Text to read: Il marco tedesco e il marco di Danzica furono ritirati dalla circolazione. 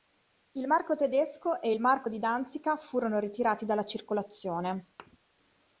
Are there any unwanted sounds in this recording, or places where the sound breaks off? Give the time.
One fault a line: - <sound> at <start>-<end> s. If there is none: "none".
- thud at 5.0-5.2 s